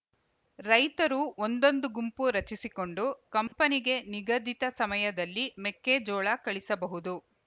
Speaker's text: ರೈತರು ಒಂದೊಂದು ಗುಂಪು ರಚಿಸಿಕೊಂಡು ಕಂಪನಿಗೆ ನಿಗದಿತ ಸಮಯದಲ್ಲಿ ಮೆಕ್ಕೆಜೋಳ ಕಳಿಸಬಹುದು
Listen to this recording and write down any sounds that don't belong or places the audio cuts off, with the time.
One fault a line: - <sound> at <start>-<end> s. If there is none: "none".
- dropout at 3.5-3.5 s